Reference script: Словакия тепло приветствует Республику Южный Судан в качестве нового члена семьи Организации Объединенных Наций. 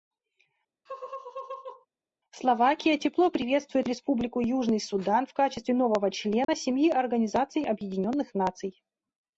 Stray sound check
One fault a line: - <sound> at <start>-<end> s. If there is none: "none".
- laugh at 0.9-1.9 s
- dropout at 6.4-6.5 s